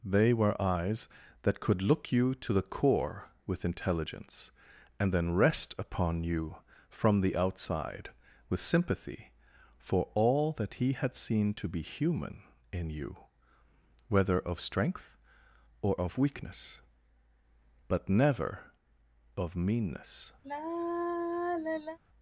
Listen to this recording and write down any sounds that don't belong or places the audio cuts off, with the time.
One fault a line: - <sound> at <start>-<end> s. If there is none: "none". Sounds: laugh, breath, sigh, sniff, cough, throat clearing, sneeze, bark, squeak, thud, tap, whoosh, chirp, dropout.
- sigh at 20.4-22.0 s